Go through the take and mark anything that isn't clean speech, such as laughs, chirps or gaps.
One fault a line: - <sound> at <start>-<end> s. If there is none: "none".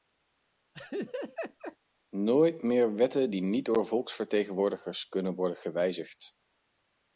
- laugh at 0.7-1.8 s